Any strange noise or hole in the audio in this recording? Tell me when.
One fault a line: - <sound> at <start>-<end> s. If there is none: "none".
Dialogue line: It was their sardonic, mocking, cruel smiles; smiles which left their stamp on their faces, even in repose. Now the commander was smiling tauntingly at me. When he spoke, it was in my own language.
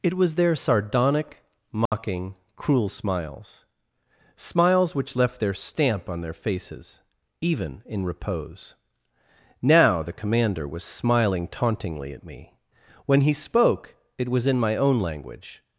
- dropout at 1.9-1.9 s